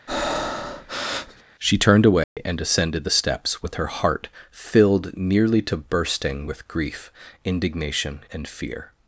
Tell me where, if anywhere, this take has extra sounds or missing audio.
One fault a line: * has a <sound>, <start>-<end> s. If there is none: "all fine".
* has a breath, 0.1-1.4 s
* has a dropout, 2.2-2.4 s